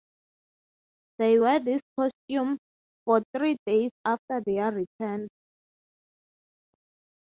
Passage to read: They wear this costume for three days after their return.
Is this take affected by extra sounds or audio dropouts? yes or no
no